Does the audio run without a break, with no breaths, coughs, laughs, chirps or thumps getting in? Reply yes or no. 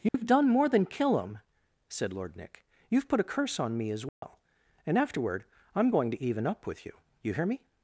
no